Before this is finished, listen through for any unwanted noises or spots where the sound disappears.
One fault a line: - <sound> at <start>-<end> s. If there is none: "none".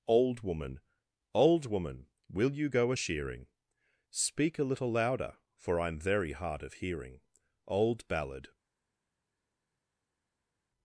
none